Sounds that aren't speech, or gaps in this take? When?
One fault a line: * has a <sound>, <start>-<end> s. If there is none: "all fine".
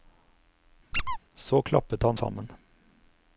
* has a squeak, 0.9-1.2 s